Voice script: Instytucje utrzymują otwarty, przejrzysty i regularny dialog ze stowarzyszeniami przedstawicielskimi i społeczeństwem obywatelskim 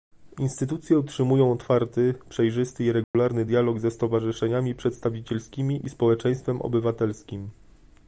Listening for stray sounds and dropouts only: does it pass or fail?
fail